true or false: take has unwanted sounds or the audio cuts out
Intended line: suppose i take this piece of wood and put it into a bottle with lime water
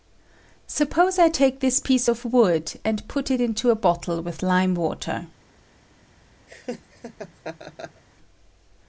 true